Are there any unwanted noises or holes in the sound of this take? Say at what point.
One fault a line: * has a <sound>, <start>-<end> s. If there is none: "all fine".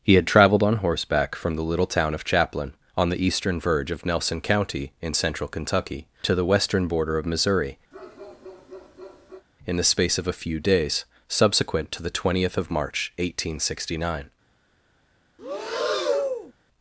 * has a bark, 7.9-9.5 s
* has a breath, 15.4-16.5 s